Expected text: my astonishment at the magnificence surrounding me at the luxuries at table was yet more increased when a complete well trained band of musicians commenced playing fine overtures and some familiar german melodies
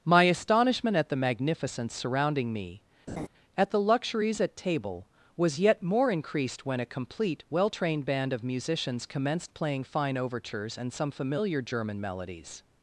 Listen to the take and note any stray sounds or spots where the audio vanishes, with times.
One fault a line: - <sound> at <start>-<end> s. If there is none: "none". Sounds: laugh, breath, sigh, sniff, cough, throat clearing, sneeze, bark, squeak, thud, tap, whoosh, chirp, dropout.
- laugh at 3.1-3.3 s